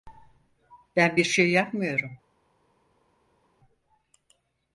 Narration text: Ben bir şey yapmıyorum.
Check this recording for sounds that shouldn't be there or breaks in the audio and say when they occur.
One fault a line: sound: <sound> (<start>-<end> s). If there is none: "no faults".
no faults